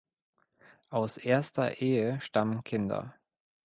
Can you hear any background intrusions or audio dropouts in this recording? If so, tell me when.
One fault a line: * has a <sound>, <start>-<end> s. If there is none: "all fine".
all fine